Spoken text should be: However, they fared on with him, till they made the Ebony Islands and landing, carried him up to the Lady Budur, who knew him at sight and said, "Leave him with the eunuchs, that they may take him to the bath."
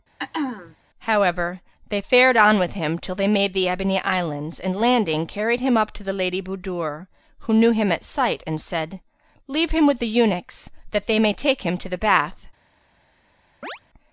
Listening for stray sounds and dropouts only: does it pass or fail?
fail